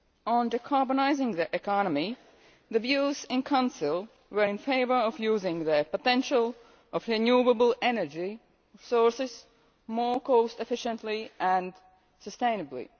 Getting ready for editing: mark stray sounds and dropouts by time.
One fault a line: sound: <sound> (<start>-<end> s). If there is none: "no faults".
no faults